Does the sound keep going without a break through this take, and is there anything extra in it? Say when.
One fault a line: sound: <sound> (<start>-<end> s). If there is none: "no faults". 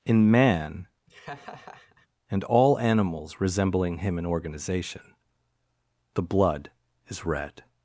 sound: laugh (1.1-2.1 s)